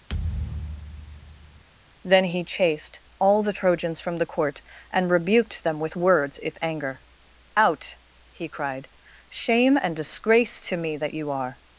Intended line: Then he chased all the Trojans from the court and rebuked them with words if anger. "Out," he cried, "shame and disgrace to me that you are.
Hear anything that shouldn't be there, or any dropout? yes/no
yes